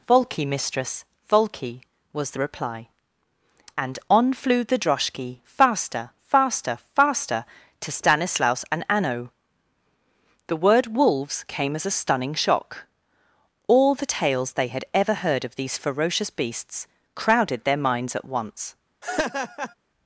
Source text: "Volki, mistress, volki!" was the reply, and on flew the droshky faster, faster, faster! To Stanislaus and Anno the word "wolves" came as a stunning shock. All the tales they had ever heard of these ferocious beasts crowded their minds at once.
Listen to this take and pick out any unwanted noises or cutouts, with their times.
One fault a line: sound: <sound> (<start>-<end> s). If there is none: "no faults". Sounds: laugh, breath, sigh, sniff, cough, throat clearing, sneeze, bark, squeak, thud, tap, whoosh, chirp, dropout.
sound: laugh (19.0-19.7 s)